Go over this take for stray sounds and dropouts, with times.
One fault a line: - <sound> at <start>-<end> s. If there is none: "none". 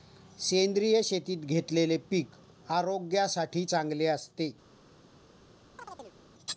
- chirp at 5.8-6.2 s